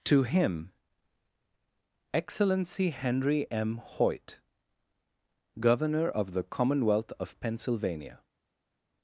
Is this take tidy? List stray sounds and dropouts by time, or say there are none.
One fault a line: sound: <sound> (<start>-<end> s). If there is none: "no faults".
no faults